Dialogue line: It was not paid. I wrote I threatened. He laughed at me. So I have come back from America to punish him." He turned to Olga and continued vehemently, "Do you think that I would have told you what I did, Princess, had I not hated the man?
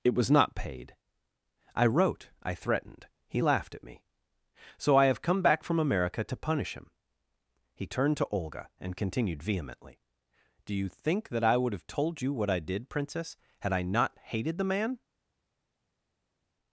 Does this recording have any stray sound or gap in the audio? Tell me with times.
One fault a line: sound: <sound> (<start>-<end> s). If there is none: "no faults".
no faults